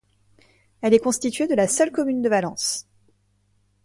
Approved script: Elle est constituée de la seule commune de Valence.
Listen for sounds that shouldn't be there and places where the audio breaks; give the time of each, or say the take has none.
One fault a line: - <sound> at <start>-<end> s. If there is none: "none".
none